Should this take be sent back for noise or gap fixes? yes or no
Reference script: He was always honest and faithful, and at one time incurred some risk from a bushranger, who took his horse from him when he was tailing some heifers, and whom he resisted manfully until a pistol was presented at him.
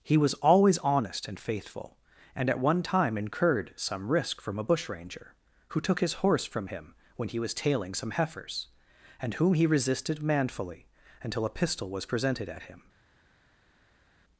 no